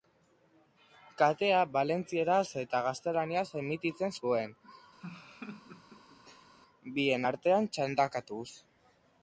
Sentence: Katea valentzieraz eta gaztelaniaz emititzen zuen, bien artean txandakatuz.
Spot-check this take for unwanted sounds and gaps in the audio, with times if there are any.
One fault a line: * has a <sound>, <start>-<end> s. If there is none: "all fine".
* has a laugh, 5.0-6.5 s